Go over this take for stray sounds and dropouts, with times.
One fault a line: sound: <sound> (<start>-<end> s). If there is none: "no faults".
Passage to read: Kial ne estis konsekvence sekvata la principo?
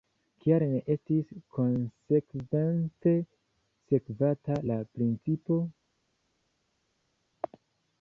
no faults